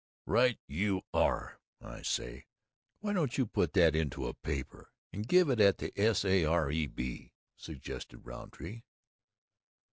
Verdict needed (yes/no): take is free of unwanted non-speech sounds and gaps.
yes